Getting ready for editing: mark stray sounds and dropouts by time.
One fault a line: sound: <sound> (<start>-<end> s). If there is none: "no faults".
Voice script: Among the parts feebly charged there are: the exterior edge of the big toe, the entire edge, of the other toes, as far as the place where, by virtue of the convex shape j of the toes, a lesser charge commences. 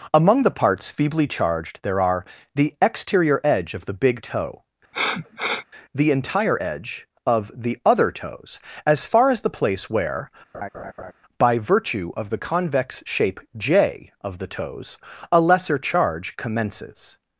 sound: sniff (4.9-5.7 s)
sound: laugh (10.5-11.1 s)